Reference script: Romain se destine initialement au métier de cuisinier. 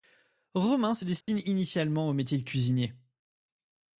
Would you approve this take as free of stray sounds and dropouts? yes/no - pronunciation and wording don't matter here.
no